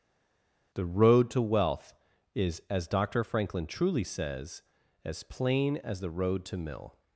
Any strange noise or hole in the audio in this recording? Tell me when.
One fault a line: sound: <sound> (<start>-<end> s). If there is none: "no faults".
no faults